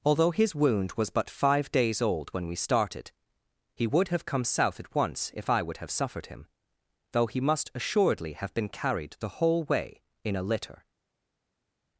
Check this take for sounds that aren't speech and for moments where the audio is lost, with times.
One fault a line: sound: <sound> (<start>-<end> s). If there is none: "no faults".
no faults